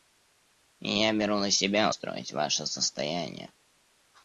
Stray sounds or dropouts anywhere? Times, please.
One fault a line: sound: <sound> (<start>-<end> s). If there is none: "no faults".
no faults